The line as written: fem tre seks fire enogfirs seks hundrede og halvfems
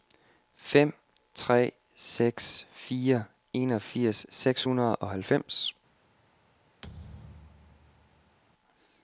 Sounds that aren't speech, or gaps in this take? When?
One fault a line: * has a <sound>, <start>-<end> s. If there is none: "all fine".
* has a thud, 6.8-8.4 s